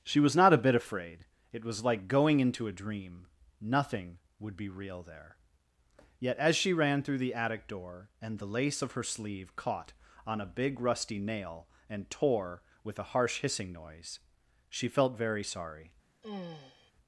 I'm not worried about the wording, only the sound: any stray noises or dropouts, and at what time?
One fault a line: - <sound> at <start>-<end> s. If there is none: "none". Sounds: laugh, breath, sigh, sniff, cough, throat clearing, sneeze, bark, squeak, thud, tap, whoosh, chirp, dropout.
- sigh at 16.2-16.9 s